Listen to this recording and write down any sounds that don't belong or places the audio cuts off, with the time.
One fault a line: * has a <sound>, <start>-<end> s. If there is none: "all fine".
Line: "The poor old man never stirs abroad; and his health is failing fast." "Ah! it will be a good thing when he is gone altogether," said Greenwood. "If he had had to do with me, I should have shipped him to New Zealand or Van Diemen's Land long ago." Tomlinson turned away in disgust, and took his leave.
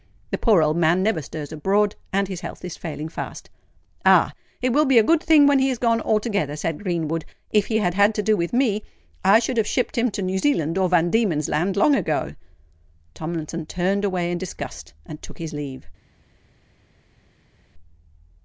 all fine